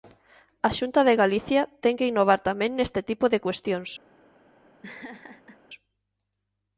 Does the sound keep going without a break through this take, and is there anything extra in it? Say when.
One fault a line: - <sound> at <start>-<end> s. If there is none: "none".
- laugh at 4.8-5.6 s